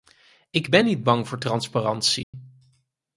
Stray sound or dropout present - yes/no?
yes